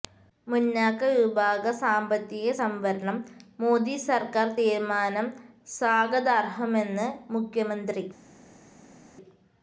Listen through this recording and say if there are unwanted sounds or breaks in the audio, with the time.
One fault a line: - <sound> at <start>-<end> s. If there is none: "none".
none